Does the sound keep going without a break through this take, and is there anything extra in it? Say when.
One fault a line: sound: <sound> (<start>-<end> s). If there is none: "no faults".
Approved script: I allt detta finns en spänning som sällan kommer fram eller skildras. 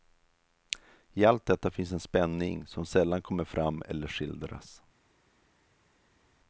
no faults